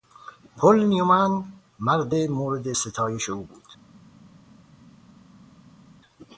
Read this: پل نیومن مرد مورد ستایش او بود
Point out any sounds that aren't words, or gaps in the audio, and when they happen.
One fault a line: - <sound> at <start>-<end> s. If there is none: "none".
none